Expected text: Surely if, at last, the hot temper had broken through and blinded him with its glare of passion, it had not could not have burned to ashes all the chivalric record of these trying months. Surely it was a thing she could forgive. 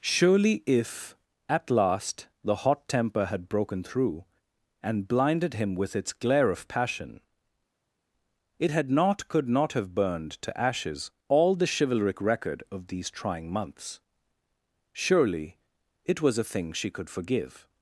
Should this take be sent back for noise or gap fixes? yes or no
no